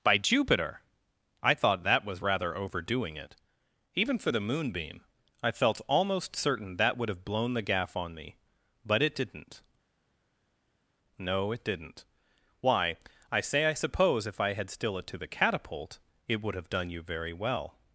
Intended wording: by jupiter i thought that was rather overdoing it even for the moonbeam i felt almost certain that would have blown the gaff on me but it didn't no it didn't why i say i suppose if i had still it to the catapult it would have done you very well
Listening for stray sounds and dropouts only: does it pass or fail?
pass